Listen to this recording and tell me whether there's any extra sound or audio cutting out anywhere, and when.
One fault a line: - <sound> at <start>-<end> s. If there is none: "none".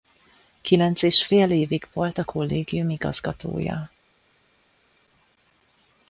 none